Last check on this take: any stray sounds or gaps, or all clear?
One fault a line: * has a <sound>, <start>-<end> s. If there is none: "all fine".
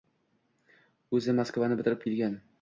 all fine